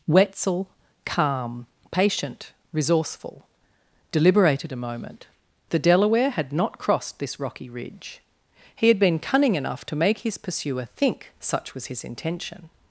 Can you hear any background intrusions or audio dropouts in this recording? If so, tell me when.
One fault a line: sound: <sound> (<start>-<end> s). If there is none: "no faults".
no faults